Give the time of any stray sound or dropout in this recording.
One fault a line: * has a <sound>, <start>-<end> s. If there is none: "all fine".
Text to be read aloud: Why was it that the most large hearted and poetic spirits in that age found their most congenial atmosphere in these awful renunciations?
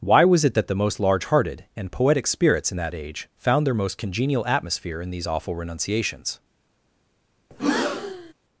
* has a breath, 7.5-8.3 s